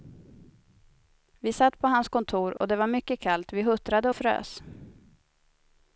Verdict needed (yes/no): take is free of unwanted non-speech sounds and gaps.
no